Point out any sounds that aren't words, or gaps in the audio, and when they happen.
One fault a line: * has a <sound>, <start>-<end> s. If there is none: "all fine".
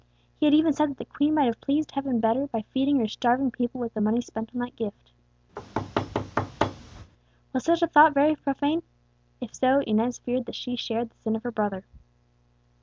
* has a thud, 5.6-7.1 s